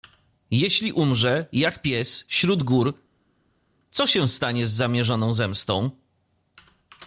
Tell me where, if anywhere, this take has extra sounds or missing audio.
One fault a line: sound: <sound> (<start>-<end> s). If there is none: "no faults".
no faults